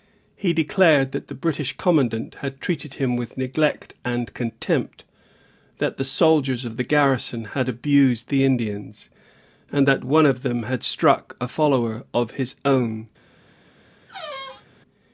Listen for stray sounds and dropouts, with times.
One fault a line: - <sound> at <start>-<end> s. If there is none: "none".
- squeak at 14.1-14.7 s